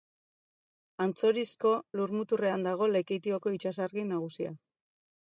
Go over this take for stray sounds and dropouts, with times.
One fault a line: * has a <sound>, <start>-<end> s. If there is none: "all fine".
all fine